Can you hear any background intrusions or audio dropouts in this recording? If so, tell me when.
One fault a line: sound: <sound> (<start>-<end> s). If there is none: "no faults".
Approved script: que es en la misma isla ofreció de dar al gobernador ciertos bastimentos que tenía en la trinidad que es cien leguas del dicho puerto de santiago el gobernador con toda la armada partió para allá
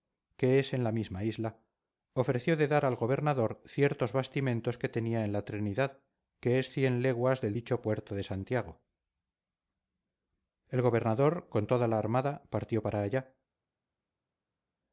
no faults